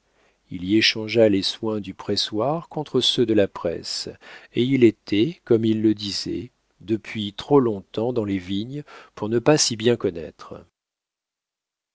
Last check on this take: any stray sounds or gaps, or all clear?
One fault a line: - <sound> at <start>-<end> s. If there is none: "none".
none